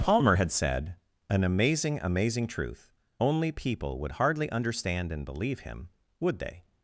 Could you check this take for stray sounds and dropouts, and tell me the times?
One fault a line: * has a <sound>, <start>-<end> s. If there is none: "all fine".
all fine